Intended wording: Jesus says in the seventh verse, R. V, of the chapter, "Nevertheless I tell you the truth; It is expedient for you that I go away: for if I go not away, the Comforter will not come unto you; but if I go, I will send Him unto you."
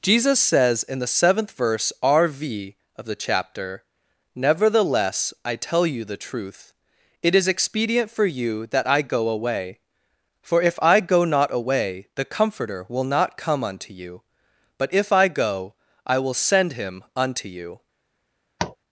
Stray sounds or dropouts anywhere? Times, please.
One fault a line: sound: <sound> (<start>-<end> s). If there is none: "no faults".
sound: tap (18.6-18.8 s)